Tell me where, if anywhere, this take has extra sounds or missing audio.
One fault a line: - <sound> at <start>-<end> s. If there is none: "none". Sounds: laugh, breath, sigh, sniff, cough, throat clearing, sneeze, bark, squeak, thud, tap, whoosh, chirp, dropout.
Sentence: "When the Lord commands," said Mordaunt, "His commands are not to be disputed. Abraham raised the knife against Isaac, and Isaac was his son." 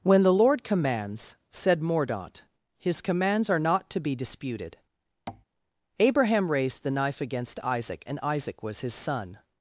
- tap at 5.3-5.4 s